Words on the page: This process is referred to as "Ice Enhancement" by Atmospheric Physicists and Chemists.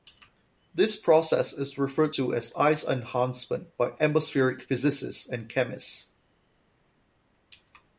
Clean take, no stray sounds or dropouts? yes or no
yes